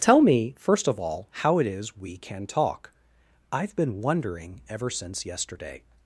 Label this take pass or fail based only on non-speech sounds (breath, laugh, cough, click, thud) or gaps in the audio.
pass